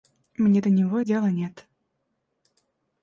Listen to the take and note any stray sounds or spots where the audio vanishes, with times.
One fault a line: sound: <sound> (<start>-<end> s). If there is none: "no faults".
no faults